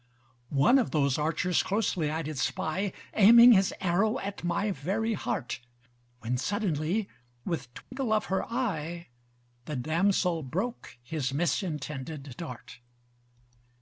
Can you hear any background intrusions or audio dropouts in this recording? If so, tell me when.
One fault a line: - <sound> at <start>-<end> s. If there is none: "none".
- dropout at 7.8-7.9 s